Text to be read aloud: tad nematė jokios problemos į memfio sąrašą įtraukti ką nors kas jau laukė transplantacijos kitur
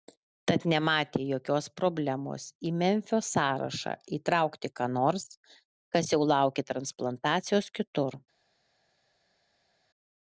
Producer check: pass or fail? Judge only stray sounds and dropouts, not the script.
pass